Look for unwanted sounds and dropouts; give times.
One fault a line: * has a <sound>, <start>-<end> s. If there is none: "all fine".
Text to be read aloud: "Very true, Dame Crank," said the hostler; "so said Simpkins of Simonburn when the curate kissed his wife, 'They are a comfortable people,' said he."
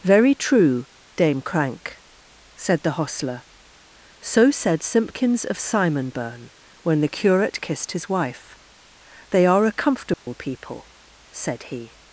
* has a dropout, 10.1-10.3 s